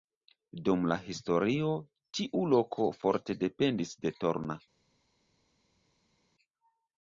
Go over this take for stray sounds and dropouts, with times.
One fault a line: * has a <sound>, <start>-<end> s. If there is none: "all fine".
all fine